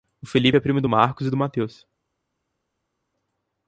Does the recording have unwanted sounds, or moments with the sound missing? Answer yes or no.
no